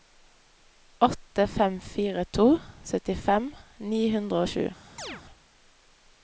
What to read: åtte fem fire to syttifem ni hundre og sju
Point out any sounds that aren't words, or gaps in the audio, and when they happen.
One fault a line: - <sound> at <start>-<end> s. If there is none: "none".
- chirp at 5.0-5.2 s